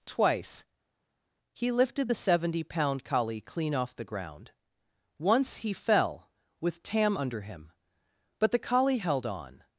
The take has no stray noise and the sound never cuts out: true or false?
true